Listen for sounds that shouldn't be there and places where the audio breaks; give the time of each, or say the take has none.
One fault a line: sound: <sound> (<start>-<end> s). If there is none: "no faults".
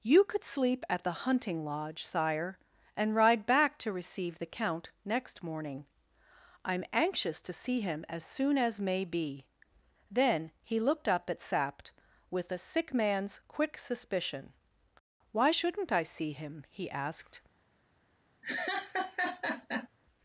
sound: laugh (18.4-19.9 s)